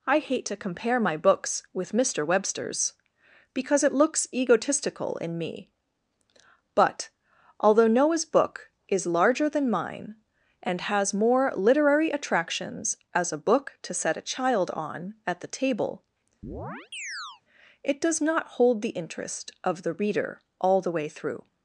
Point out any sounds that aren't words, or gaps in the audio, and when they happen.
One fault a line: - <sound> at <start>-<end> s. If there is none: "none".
- chirp at 16.4-17.4 s